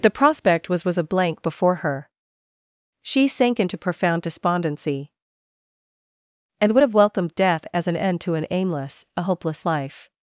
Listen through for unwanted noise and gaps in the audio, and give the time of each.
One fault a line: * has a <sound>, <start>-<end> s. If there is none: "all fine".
all fine